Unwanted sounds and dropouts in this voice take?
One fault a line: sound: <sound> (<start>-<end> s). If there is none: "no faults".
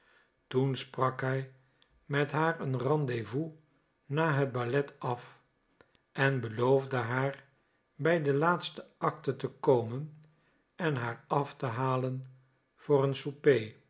no faults